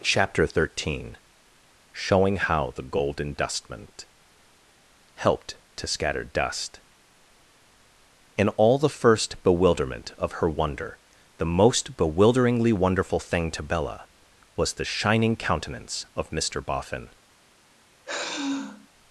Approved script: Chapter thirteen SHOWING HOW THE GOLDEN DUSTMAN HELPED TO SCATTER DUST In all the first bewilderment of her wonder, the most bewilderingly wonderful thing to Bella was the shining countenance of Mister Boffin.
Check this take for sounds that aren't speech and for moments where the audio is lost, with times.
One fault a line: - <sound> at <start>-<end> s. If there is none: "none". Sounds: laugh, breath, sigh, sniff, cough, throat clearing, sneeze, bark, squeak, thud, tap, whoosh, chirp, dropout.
- sigh at 18.0-18.9 s